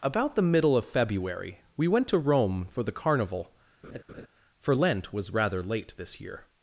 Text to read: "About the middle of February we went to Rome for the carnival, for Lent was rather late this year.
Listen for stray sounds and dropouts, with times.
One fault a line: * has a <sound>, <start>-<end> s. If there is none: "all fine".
* has a laugh, 3.8-4.3 s